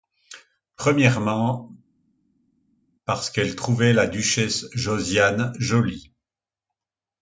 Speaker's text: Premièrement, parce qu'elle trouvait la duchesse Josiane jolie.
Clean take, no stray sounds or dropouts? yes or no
yes